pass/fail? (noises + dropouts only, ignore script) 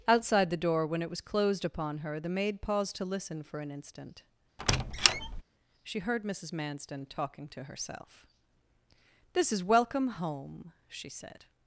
fail